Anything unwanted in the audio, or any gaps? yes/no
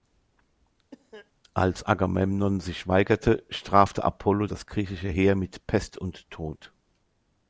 yes